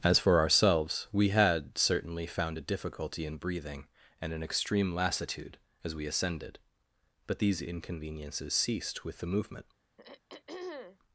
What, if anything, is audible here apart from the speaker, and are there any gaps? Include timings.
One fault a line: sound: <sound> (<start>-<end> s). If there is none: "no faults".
sound: throat clearing (10.0-11.0 s)